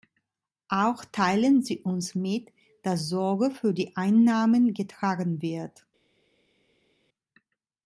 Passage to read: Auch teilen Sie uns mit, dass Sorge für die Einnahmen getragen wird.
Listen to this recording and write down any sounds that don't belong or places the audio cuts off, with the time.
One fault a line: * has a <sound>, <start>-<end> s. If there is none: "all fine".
all fine